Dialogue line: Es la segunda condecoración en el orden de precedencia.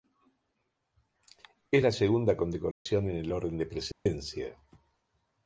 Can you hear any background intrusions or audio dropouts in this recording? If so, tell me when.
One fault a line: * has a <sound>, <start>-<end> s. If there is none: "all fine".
* has a dropout, 2.7-2.9 s
* has a dropout, 3.9-4.1 s